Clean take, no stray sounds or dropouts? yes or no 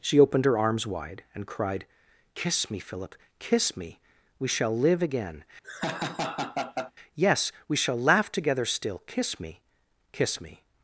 no